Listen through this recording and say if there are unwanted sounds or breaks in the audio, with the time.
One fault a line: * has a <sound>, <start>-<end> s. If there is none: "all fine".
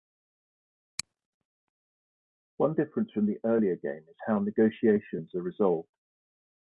all fine